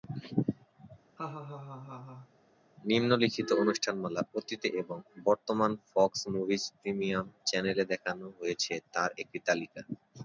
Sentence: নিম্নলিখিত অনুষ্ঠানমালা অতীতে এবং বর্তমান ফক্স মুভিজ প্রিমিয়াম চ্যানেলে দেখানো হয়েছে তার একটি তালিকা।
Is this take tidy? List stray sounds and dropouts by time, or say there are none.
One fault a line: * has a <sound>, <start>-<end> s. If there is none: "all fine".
* has a laugh, 1.2-2.3 s